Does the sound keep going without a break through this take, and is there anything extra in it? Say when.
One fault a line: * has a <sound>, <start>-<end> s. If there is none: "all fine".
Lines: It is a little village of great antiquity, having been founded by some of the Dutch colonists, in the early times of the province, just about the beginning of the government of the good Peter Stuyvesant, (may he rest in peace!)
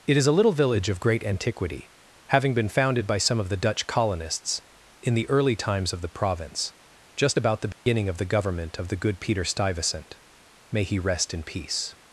* has a dropout, 7.7-7.9 s